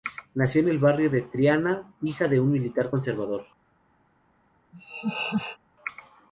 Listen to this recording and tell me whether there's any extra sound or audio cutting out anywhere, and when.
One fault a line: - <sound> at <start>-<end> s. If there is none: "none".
- laugh at 4.7-5.6 s